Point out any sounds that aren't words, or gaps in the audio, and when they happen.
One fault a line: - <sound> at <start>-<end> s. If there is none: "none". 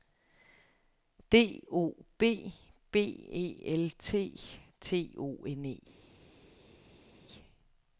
none